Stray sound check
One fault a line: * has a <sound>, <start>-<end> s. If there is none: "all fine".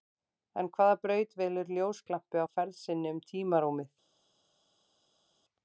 all fine